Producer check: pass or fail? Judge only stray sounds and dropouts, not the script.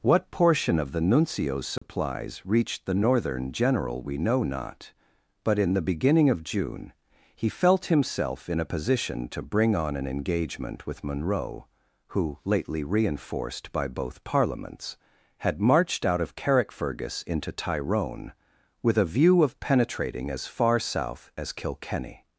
fail